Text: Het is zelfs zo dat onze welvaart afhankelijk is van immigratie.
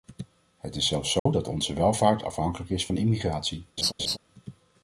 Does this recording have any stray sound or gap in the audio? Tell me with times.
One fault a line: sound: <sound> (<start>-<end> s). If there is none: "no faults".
sound: dropout (1.2-1.3 s)
sound: laugh (3.8-4.2 s)